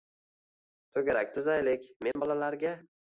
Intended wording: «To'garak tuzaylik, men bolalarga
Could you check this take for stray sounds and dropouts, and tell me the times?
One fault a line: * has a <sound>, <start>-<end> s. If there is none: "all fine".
* has a dropout, 2.1-2.2 s